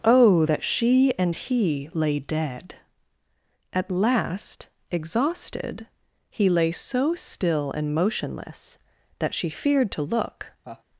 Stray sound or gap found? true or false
true